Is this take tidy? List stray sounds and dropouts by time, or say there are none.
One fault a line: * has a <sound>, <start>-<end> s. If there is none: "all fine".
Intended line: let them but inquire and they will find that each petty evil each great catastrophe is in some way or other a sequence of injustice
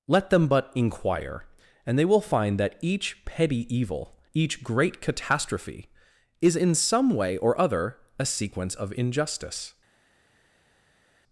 all fine